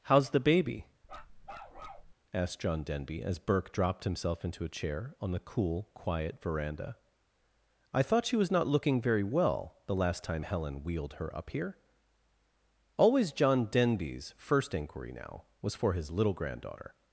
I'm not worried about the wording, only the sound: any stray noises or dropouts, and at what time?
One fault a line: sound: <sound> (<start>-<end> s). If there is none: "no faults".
sound: bark (1.0-2.1 s)